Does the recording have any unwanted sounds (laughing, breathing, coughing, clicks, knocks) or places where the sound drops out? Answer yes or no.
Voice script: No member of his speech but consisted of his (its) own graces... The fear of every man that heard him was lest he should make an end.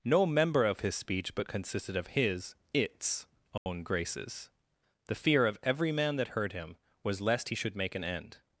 yes